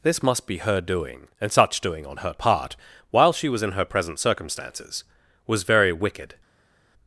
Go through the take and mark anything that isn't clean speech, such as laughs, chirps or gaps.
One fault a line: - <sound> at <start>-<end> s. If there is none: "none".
none